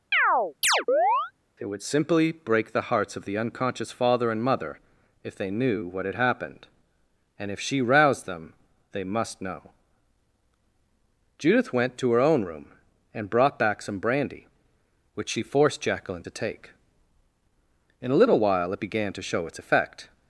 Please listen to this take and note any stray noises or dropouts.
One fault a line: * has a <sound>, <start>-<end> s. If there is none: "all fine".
* has a chirp, 0.1-1.3 s